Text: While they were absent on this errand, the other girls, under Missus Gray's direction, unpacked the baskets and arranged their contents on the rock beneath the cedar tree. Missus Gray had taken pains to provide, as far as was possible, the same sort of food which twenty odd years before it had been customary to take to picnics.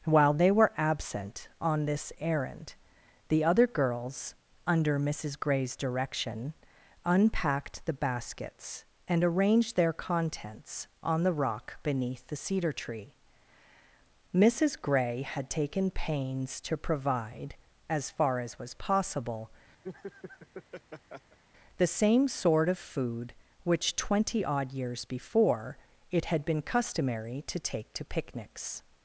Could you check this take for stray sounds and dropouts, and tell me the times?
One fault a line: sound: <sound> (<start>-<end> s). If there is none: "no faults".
sound: laugh (19.8-21.4 s)